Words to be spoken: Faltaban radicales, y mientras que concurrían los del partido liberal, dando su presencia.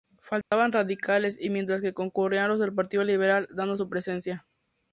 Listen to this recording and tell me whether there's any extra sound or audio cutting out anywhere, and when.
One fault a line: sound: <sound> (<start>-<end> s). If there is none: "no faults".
sound: dropout (0.4-0.5 s)